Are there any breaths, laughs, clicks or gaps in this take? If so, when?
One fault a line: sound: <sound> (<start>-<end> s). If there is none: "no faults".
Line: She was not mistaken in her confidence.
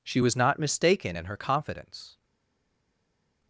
no faults